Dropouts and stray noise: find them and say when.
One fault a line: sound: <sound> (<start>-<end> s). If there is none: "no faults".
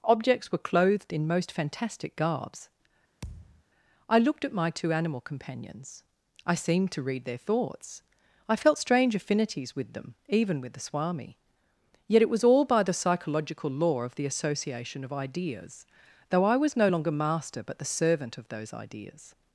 sound: thud (3.2-3.6 s)